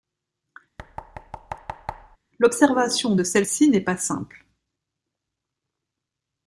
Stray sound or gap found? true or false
true